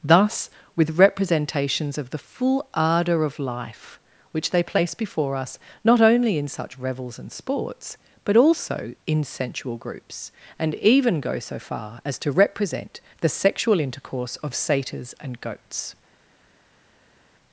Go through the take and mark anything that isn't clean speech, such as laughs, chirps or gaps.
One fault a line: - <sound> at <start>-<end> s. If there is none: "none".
none